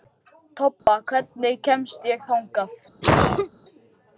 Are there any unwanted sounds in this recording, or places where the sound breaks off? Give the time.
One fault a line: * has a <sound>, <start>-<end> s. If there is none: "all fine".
* has a dropout, 0.8-0.9 s
* has a cough, 3.0-3.5 s